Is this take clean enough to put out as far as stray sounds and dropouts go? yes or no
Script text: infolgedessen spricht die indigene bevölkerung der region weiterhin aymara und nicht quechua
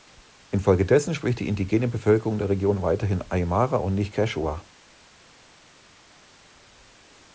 yes